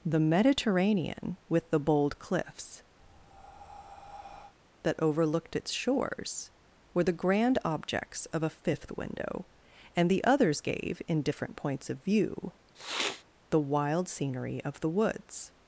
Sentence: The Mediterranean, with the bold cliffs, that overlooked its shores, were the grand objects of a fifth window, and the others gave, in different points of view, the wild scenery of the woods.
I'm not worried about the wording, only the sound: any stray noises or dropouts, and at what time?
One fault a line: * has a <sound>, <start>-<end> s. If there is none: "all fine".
* has a breath, 3.0-4.5 s
* has a sniff, 12.7-13.2 s